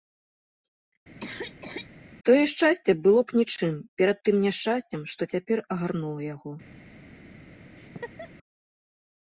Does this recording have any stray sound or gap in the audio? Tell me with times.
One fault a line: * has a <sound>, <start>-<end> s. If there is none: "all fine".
* has a cough, 1.2-1.9 s
* has a laugh, 7.8-8.3 s